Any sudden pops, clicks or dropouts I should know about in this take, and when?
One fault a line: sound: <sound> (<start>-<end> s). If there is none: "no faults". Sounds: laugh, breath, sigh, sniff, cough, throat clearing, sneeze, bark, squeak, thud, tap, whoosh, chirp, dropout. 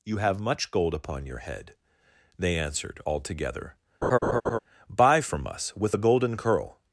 sound: laugh (4.0-4.6 s)